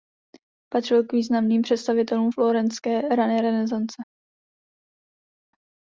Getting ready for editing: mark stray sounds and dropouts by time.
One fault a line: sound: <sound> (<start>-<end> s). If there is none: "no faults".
no faults